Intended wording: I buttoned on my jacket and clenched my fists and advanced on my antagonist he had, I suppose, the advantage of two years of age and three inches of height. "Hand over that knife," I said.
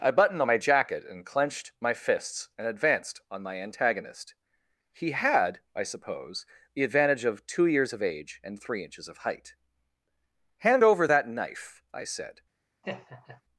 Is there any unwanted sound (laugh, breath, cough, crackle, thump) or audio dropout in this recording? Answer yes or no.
yes